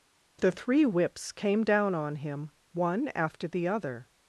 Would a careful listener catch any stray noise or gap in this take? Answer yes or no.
no